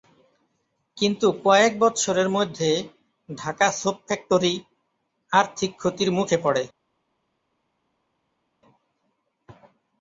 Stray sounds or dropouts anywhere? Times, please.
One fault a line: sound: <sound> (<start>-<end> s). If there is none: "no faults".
no faults